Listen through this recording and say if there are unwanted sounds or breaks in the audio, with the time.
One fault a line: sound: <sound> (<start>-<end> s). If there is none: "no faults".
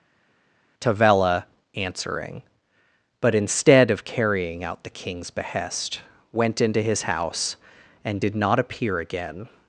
no faults